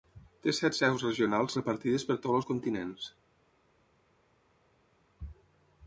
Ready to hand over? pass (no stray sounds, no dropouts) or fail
pass